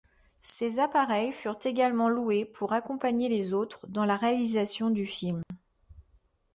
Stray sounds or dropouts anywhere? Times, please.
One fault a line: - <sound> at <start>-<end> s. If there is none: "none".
- dropout at 5.4-5.5 s